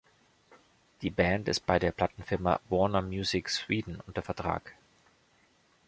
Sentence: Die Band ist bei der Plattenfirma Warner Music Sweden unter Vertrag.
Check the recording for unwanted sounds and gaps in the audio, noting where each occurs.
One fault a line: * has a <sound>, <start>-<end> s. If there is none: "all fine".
all fine